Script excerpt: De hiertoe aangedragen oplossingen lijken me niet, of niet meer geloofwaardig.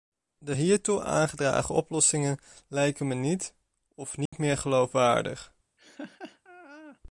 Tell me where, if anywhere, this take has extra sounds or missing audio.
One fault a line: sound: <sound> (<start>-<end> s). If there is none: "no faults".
sound: dropout (4.3-4.3 s)
sound: laugh (5.8-7.0 s)